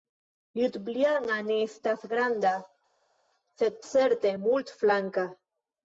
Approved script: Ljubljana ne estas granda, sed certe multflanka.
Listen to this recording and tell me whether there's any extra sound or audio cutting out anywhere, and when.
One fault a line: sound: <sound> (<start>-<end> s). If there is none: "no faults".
no faults